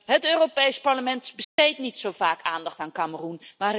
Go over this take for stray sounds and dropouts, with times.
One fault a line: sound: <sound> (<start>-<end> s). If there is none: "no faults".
sound: dropout (1.4-1.6 s)